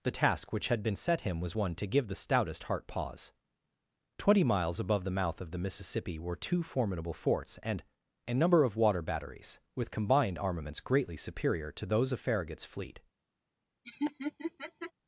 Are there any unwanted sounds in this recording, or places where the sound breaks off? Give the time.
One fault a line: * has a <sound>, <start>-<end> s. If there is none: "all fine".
* has a laugh, 13.8-14.9 s